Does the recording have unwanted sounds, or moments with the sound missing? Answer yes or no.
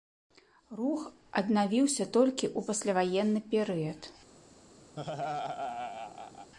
yes